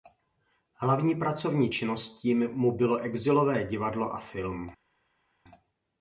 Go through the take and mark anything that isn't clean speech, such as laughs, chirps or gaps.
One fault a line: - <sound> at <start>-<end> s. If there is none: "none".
none